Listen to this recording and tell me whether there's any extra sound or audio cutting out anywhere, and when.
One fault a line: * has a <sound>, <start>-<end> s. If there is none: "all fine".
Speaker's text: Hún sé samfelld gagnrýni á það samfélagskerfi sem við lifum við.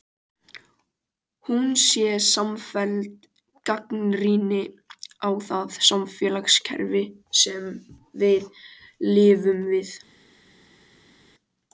all fine